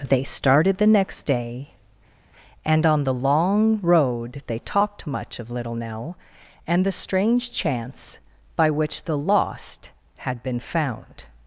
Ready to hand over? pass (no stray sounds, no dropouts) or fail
pass